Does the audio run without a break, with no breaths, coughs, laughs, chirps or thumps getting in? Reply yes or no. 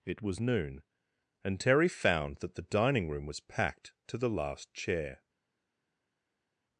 yes